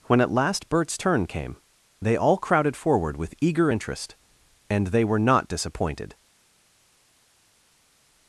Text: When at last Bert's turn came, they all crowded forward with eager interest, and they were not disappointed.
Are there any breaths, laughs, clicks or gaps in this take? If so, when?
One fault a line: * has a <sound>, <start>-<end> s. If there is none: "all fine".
all fine